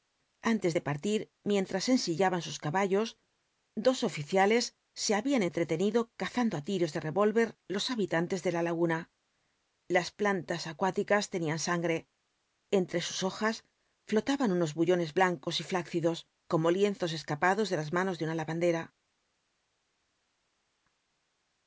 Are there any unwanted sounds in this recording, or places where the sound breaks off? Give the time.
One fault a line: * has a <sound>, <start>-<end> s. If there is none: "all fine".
all fine